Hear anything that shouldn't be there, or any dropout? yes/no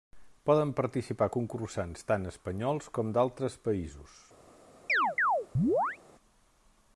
yes